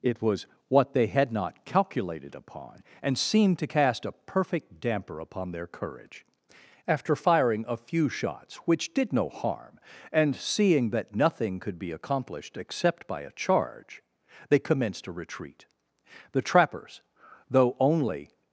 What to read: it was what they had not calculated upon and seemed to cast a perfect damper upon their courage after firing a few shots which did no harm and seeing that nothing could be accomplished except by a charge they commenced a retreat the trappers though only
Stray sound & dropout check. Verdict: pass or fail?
pass